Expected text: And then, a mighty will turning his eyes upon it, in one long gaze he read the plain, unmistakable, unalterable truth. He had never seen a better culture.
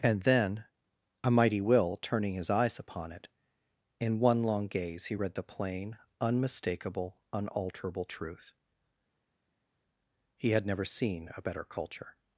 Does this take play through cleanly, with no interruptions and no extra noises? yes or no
yes